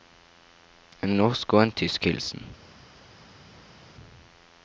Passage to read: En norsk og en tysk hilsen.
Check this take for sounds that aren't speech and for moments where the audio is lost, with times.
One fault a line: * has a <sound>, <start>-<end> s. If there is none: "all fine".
all fine